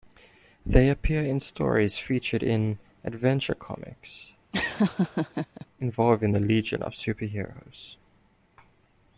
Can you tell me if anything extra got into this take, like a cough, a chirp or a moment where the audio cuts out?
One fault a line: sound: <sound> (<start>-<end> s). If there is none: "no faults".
sound: laugh (4.5-5.7 s)